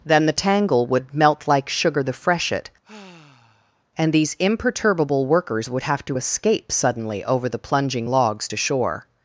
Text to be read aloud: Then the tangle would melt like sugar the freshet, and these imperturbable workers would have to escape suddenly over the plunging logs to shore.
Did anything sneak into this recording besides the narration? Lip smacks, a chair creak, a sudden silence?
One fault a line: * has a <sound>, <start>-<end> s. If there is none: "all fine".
* has a sigh, 2.8-3.8 s